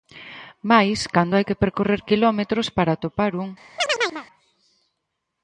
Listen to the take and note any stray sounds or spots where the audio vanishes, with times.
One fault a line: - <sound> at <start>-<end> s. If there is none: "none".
- chirp at 3.8-4.3 s